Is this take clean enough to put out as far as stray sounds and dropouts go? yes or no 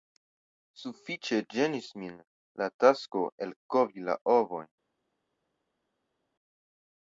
yes